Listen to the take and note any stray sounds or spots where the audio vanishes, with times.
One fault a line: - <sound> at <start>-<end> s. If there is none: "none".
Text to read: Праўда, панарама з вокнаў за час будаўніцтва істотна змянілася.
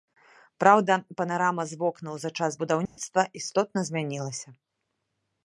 - dropout at 2.9-3.0 s